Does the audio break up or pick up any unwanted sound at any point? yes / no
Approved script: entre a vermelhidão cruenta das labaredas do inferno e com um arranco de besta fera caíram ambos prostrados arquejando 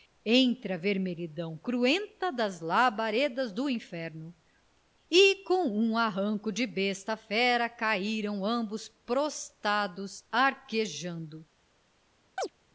yes